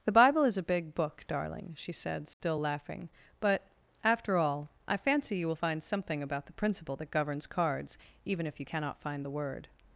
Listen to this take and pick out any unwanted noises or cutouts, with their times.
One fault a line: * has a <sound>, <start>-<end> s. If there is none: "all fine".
* has a dropout, 2.3-2.4 s